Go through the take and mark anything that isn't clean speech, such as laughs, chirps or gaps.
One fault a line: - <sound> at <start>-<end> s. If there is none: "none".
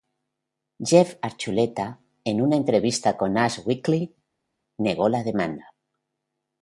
none